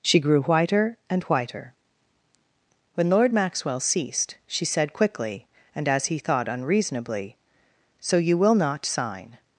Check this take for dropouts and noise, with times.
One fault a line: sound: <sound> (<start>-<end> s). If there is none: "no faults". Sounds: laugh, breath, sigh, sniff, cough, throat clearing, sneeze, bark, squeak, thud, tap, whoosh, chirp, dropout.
no faults